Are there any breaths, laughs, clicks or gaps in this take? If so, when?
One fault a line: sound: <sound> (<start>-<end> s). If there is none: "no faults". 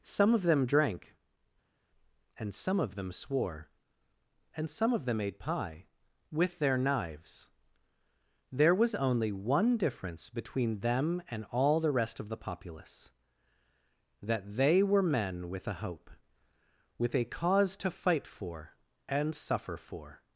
no faults